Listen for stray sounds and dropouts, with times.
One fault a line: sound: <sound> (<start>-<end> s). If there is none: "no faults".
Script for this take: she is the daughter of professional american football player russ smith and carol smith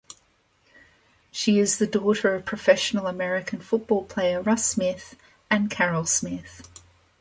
no faults